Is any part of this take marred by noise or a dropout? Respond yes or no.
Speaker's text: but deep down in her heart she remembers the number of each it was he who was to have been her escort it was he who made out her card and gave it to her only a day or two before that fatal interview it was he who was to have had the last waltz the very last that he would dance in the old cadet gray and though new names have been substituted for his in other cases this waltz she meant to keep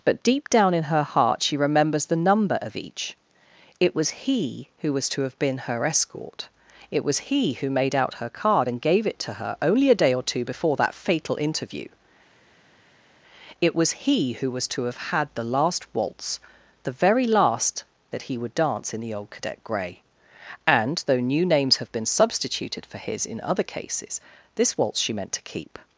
no